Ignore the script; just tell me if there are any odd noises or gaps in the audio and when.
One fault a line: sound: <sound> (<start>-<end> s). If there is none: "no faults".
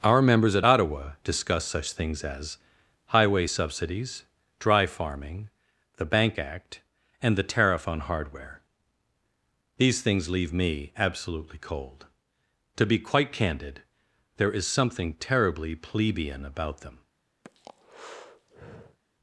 sound: breath (17.4-19.0 s)